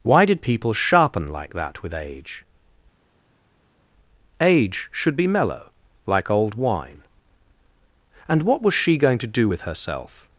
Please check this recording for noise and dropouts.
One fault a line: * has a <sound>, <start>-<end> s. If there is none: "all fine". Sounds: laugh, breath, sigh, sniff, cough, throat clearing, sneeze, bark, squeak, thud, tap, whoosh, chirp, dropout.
all fine